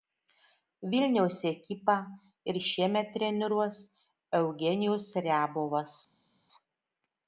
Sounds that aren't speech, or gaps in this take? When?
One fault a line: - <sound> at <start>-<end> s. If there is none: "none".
none